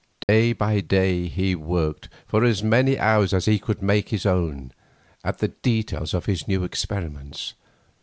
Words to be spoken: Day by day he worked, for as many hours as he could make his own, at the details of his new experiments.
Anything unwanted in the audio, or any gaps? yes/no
yes